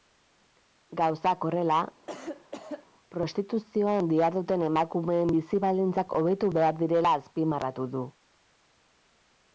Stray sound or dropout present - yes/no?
yes